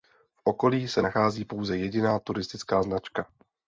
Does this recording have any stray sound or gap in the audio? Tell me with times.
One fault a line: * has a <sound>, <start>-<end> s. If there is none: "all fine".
all fine